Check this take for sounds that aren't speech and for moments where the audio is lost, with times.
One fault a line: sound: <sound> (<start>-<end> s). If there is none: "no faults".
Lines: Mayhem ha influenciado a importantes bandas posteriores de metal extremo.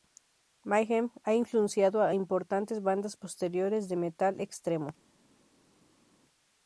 no faults